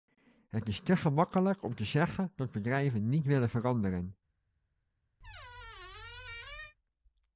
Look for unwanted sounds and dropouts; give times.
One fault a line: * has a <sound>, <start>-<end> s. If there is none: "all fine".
* has a squeak, 5.2-6.7 s